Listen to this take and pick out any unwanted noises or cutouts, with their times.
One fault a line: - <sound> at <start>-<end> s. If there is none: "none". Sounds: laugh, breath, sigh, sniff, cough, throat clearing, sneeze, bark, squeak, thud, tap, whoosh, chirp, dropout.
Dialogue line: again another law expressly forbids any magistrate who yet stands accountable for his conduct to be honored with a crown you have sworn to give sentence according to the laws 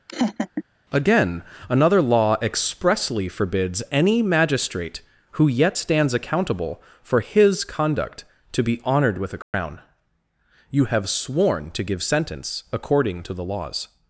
- laugh at 0.1-0.6 s
- dropout at 9.4-9.5 s